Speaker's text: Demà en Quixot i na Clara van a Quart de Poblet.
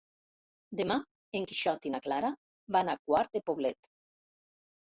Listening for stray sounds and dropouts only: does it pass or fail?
pass